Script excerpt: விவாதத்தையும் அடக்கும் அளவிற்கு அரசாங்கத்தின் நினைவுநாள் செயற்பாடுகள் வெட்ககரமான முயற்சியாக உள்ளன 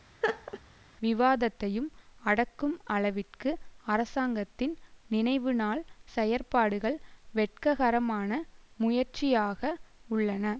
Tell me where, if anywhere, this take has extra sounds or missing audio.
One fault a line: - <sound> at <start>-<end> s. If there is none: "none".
- laugh at 0.2-0.6 s